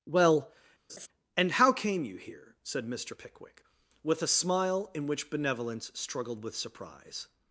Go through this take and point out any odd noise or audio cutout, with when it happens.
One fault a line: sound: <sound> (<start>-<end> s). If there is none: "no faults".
sound: laugh (0.9-1.1 s)